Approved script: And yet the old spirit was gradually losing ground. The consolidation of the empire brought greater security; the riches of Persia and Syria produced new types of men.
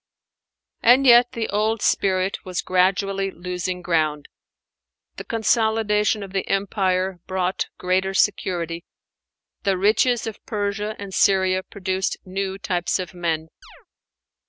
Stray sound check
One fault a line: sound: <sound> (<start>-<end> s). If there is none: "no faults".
sound: chirp (13.6-13.9 s)